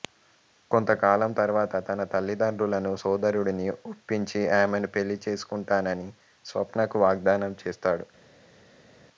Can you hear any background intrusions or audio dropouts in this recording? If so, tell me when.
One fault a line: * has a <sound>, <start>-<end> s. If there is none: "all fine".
all fine